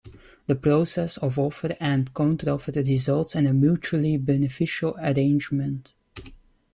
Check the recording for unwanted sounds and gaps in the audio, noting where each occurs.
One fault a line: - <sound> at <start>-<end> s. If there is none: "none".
none